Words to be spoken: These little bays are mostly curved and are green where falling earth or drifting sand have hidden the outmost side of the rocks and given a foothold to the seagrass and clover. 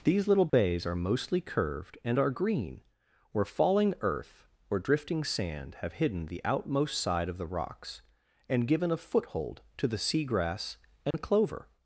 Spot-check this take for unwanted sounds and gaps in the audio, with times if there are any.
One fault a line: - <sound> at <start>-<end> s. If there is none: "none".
- dropout at 0.5-0.5 s
- dropout at 11.1-11.1 s